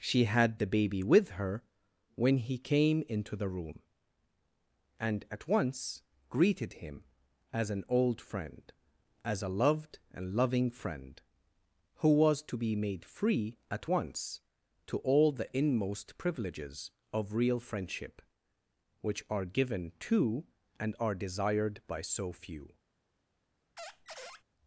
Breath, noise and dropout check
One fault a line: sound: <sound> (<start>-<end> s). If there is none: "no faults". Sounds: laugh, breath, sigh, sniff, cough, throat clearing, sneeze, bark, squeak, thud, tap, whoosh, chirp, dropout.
sound: squeak (23.8-24.4 s)